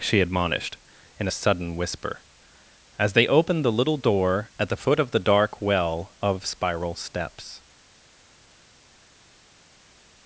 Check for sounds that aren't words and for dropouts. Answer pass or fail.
pass